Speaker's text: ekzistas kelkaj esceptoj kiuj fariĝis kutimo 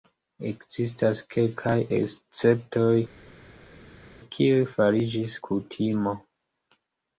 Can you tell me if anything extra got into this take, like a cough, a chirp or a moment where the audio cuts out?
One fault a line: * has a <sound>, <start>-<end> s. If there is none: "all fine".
all fine